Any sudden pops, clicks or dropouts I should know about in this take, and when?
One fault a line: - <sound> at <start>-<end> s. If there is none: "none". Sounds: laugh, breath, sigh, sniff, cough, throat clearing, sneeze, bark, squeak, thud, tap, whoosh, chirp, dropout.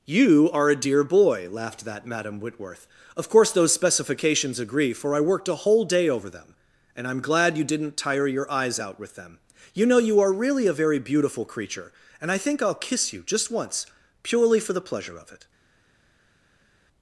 none